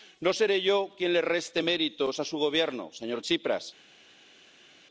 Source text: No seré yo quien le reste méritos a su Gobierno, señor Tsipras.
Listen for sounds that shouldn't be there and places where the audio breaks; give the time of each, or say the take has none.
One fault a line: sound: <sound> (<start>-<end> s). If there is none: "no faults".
no faults